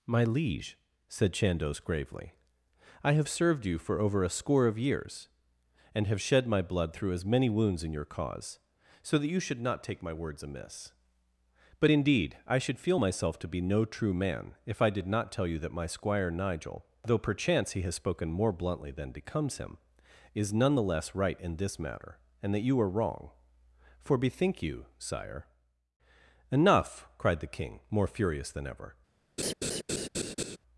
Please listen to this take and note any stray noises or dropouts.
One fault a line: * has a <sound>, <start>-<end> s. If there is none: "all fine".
* has a laugh, 29.4-30.6 s